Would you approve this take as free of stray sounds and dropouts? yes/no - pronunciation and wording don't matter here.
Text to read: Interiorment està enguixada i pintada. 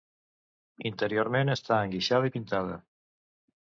yes